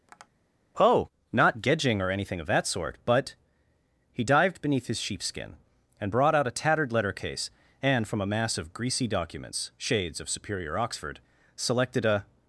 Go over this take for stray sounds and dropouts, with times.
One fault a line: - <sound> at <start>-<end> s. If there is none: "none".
- tap at 0.1-0.3 s